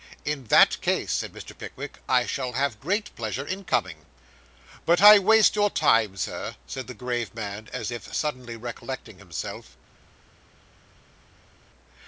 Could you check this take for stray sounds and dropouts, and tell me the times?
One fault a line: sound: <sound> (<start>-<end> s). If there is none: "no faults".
no faults